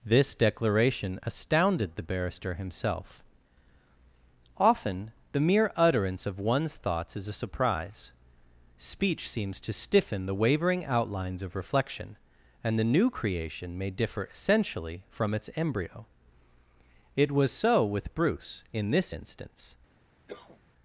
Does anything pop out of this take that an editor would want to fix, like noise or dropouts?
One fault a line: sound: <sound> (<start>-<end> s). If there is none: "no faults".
sound: cough (20.3-20.6 s)